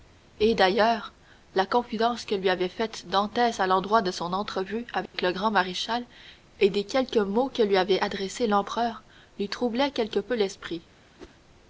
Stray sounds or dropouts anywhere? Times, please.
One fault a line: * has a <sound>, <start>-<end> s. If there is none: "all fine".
* has a dropout, 5.1-5.1 s
* has a whoosh, 11.2-11.4 s